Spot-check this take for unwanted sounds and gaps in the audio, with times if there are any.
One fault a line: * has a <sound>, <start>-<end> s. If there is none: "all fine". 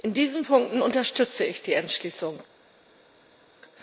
all fine